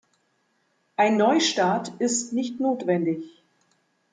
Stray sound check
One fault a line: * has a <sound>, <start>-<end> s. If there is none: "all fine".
all fine